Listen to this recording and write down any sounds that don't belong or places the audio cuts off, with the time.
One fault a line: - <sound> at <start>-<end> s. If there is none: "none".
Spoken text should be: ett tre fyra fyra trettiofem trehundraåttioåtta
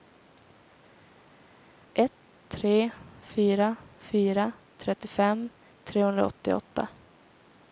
none